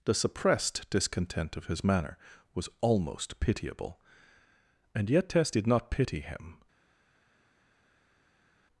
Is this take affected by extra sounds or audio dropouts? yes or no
no